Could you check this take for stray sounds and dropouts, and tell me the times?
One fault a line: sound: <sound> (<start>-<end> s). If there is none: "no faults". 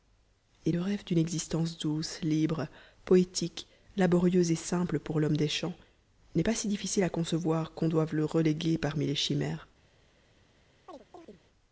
sound: chirp (10.9-11.4 s)